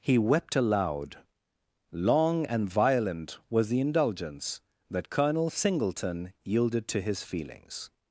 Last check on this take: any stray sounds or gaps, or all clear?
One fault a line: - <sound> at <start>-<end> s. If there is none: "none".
none